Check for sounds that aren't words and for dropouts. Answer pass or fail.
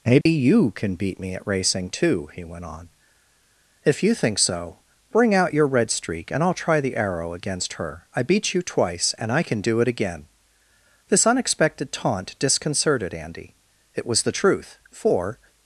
fail